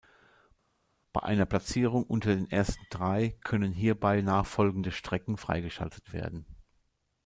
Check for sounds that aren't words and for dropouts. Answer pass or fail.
pass